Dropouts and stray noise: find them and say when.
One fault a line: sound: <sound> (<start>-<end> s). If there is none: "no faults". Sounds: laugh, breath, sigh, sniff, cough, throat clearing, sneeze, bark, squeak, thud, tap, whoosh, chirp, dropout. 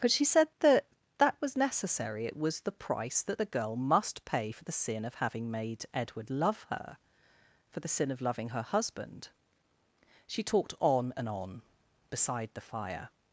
no faults